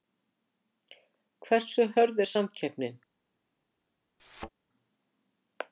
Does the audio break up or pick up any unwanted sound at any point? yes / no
yes